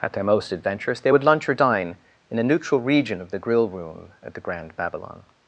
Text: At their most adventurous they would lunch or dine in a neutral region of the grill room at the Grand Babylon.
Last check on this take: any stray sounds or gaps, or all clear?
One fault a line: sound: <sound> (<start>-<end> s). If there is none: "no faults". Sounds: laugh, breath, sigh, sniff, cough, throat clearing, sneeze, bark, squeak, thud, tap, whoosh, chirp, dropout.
no faults